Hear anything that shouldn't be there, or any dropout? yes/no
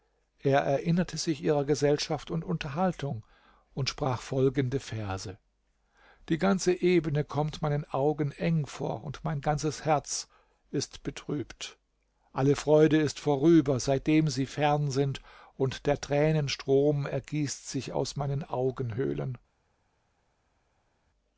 no